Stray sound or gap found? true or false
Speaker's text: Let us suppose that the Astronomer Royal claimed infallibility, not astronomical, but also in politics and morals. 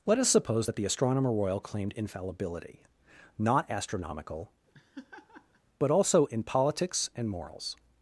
true